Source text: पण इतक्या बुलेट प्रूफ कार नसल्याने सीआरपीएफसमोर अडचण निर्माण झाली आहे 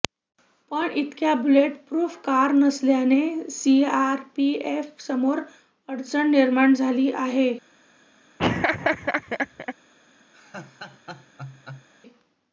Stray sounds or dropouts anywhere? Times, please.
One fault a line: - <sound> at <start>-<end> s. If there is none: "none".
- laugh at 8.4-9.7 s
- laugh at 10.3-11.9 s